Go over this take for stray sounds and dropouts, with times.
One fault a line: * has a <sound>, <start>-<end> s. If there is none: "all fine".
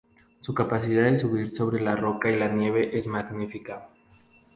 all fine